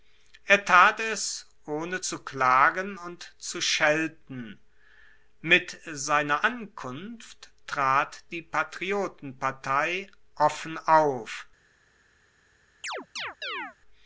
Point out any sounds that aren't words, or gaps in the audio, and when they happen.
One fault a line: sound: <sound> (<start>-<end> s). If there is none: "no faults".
sound: chirp (12.8-13.8 s)